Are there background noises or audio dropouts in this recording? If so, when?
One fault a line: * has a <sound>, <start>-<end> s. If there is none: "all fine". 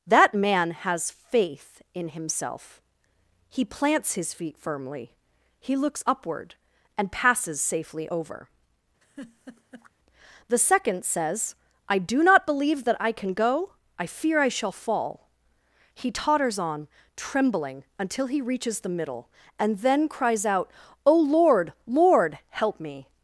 * has a laugh, 9.0-9.9 s